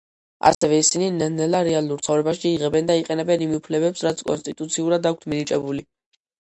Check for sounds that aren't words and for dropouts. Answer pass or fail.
fail